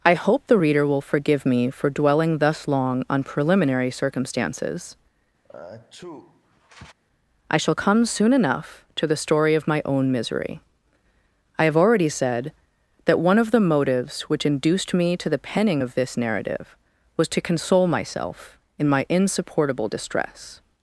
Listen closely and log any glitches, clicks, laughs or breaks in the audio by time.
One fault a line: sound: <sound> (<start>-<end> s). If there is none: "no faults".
sound: sneeze (5.4-6.9 s)